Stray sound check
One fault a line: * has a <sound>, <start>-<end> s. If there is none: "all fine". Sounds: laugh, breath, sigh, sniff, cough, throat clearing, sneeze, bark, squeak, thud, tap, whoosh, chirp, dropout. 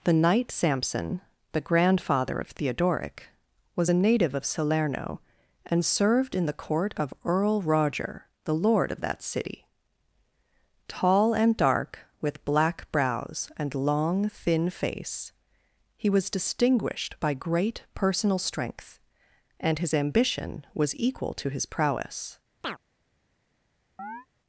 * has a chirp, 22.6-22.8 s
* has a chirp, 24.0-24.3 s